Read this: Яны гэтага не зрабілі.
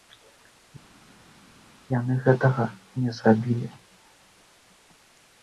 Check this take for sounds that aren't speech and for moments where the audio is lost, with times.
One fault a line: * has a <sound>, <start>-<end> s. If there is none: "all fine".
all fine